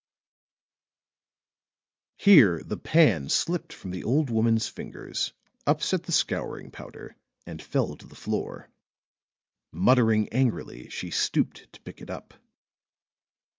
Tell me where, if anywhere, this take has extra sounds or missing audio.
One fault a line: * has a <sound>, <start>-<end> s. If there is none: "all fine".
all fine